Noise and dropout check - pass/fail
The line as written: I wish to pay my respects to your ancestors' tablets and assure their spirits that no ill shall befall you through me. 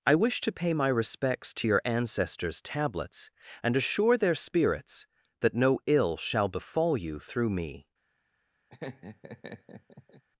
fail